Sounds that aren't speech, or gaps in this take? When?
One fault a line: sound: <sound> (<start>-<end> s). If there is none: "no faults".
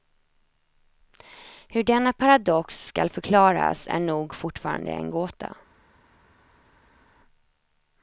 no faults